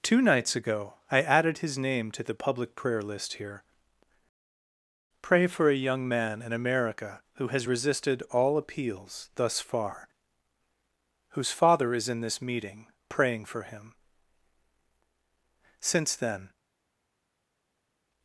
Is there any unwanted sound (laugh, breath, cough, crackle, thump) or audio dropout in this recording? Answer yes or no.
no